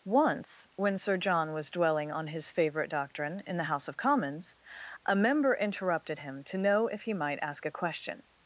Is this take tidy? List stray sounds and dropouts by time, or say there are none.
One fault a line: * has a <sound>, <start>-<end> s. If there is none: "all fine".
all fine